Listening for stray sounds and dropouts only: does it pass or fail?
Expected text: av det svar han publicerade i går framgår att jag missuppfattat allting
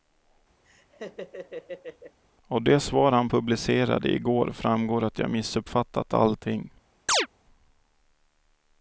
fail